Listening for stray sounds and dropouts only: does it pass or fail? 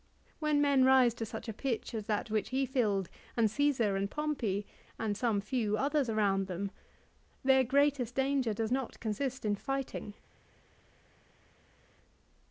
pass